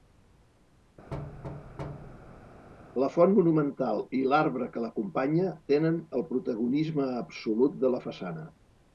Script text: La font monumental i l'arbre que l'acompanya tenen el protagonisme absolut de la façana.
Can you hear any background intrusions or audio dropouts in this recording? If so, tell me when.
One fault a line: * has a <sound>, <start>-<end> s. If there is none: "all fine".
* has a thud, 1.1-2.7 s